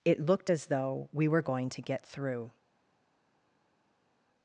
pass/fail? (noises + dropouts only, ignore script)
pass